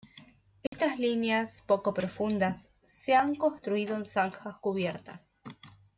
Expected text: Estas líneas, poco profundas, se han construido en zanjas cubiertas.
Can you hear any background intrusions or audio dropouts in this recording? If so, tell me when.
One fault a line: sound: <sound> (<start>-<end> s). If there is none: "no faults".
sound: dropout (0.7-0.7 s)